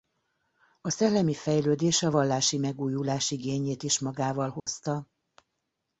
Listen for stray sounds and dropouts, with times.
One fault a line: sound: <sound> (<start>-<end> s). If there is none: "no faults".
sound: dropout (4.6-4.7 s)